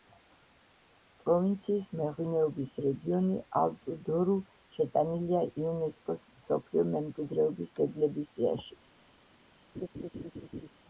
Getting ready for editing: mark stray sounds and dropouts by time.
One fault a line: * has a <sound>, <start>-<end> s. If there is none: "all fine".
* has a laugh, 9.7-10.7 s